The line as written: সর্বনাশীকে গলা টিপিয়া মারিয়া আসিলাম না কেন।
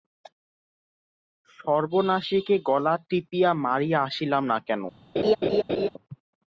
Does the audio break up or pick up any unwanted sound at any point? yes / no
yes